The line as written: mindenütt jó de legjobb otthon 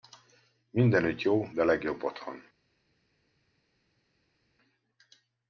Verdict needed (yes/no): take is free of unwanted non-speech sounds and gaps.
yes